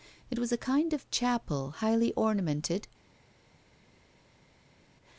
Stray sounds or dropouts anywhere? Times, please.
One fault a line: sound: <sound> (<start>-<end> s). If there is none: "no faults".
no faults